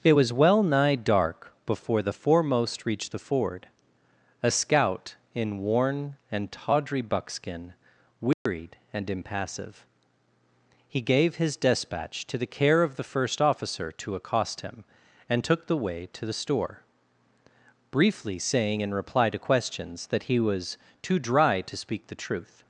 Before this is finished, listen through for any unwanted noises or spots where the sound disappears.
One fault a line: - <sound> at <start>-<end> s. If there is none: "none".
- dropout at 8.3-8.5 s